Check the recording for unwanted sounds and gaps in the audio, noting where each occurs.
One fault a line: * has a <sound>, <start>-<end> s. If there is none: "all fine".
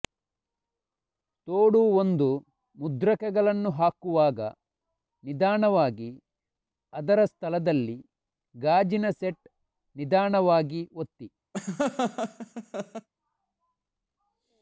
* has a laugh, 11.5-13.1 s